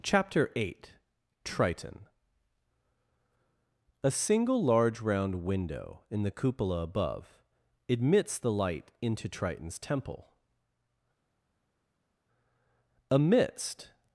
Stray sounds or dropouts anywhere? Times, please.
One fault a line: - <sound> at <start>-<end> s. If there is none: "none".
none